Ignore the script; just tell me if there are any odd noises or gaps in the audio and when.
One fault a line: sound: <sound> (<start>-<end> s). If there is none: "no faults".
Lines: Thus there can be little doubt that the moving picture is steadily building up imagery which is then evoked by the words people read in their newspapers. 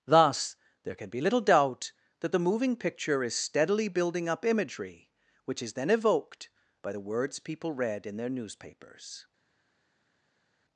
no faults